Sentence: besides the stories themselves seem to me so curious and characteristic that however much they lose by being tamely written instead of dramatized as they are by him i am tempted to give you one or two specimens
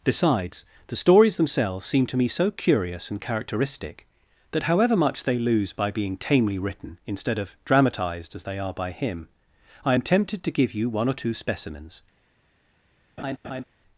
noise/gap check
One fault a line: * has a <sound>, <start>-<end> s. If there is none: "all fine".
* has a laugh, 13.2-13.6 s